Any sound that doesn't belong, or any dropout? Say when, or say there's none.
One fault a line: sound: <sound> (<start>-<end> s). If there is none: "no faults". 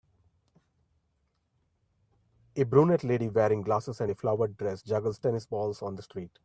no faults